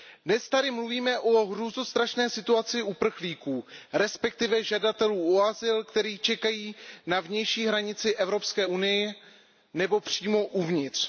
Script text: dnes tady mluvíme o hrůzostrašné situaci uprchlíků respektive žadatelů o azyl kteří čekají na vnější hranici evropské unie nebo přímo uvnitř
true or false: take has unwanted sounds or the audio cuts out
false